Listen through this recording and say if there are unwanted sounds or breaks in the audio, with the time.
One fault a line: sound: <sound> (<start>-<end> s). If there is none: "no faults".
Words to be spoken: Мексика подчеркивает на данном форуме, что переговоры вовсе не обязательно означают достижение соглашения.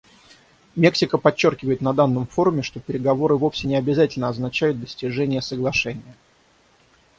no faults